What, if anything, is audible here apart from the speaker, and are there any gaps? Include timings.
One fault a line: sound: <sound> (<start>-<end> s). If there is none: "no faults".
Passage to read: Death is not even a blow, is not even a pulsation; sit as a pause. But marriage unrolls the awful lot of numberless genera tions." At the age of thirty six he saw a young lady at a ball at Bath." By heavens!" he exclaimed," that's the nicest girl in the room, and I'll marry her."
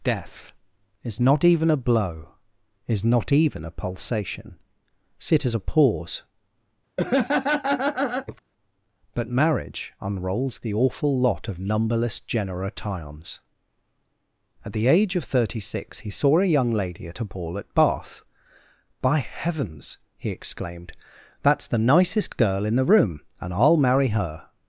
sound: laugh (7.0-8.4 s)